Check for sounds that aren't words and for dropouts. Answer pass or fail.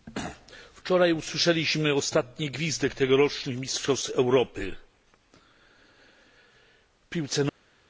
pass